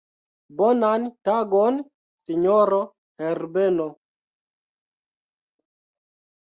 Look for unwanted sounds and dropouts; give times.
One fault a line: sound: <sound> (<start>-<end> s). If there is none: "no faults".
no faults